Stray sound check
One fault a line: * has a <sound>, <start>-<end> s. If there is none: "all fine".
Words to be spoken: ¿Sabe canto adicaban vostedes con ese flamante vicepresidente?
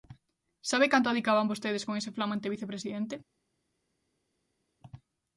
all fine